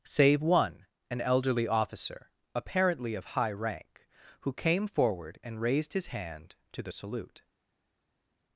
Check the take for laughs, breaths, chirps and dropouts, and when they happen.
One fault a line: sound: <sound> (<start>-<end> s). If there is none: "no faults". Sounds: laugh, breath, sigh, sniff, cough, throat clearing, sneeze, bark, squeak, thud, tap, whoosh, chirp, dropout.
no faults